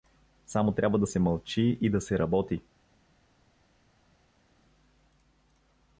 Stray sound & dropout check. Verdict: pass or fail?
pass